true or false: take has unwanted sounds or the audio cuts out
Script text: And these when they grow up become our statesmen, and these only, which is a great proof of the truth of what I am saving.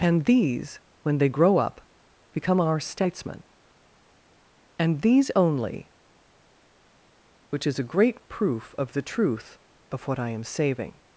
false